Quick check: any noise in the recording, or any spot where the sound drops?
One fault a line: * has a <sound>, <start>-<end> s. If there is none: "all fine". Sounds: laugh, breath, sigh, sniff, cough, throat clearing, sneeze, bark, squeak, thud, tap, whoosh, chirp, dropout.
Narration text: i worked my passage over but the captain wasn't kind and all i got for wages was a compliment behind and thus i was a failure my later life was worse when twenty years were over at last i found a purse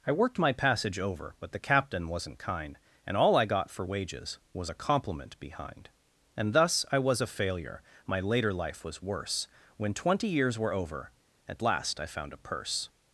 all fine